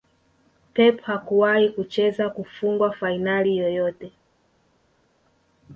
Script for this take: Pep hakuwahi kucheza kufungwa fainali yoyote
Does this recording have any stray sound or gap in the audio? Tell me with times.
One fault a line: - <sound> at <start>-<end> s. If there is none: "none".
none